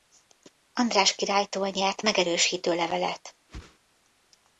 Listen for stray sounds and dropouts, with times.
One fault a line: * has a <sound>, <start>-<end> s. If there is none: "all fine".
* has a whoosh, 3.5-3.8 s